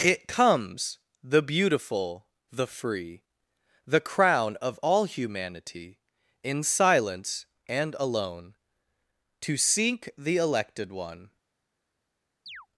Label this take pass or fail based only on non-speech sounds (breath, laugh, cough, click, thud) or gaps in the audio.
fail